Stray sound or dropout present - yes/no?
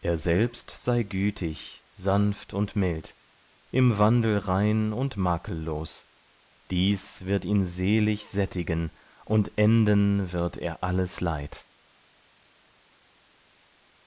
no